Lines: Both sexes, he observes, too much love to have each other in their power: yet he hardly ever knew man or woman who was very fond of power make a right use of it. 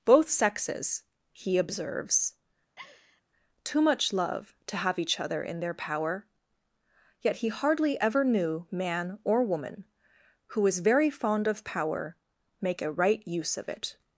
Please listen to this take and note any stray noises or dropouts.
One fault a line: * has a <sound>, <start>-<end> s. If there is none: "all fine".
* has a laugh, 2.8-3.2 s